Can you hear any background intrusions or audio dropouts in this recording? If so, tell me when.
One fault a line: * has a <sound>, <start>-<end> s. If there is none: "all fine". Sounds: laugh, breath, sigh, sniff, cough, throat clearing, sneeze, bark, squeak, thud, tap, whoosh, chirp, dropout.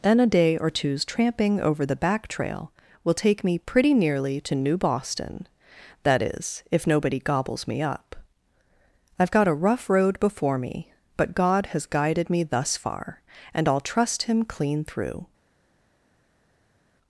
all fine